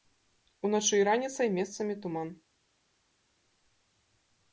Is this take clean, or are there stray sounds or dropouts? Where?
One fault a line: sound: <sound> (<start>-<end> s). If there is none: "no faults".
no faults